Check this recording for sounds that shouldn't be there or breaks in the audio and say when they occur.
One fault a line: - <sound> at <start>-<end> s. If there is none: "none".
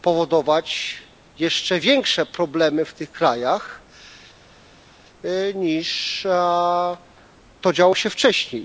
none